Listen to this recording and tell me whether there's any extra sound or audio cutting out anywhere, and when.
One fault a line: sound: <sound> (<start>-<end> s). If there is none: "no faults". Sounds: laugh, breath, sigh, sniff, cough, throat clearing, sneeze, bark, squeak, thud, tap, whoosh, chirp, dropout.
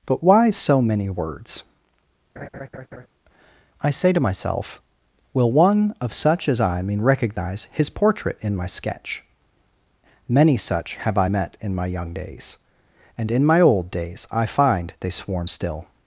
sound: laugh (2.4-3.1 s)